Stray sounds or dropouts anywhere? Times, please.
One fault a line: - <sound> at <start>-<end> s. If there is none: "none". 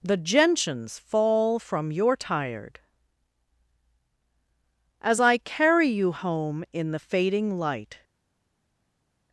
none